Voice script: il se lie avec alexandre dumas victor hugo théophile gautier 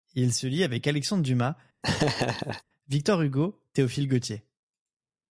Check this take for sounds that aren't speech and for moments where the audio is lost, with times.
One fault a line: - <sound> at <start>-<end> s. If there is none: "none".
- laugh at 1.8-2.6 s